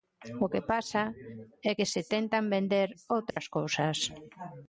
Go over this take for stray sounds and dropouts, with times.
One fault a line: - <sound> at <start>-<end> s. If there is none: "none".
- dropout at 3.3-3.4 s